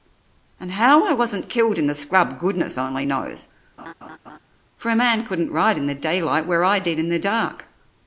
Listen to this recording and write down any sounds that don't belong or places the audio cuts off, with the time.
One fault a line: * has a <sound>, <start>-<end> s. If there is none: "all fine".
* has a laugh, 3.8-4.4 s